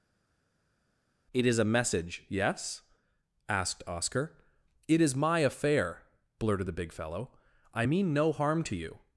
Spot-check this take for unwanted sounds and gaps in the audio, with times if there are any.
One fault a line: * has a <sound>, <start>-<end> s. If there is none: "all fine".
all fine